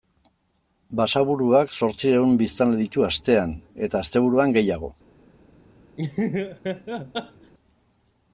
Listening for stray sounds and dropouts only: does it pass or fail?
fail